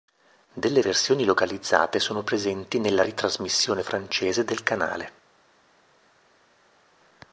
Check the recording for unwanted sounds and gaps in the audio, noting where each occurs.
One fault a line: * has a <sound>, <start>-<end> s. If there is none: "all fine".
all fine